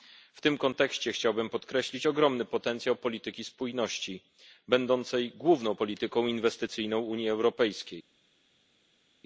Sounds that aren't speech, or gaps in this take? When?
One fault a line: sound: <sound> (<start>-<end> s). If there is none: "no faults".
no faults